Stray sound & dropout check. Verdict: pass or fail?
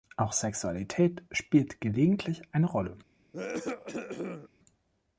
fail